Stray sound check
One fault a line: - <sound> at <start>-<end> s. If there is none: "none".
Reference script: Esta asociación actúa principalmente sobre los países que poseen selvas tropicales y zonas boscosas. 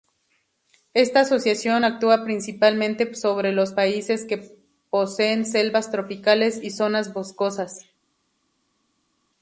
none